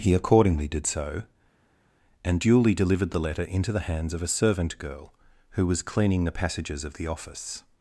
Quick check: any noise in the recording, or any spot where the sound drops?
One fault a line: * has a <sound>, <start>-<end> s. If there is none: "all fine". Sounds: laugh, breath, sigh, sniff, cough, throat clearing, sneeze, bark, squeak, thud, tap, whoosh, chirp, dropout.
all fine